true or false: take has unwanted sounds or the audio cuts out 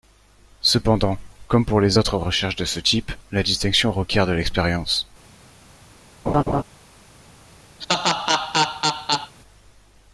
true